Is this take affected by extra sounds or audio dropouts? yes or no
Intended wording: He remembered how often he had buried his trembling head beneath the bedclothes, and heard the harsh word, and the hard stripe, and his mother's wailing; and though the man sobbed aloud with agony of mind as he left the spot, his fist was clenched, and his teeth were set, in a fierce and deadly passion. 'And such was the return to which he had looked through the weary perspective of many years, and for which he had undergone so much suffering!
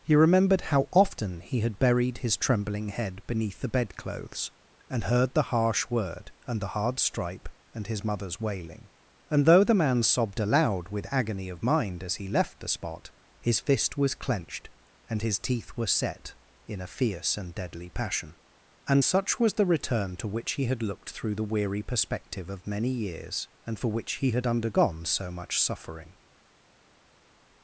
no